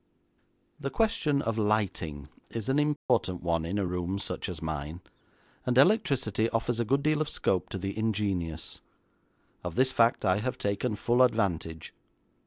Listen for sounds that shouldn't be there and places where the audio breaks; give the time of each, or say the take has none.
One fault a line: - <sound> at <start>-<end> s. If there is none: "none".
- dropout at 3.0-3.1 s